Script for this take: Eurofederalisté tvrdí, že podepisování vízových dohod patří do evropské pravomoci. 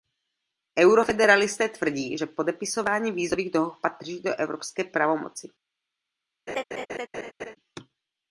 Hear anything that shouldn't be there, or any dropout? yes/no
yes